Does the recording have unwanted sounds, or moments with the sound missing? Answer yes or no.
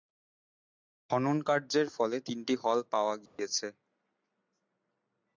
yes